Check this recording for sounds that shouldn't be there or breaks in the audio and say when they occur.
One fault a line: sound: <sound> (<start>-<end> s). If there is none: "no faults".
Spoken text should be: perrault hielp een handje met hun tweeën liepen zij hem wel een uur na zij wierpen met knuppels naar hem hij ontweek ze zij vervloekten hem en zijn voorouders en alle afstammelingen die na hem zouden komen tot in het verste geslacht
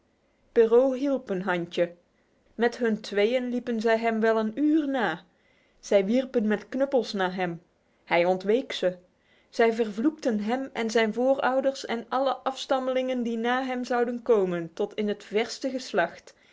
no faults